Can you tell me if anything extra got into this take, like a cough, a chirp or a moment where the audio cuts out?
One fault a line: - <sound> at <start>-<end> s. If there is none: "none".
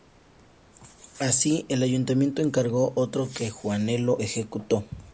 none